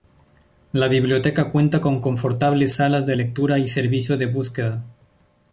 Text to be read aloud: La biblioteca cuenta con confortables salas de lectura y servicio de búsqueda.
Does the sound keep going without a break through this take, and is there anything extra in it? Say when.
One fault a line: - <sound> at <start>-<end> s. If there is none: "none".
none